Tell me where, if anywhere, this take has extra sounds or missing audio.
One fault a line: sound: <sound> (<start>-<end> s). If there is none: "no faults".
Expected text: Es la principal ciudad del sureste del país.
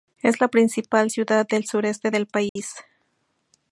sound: dropout (2.5-2.6 s)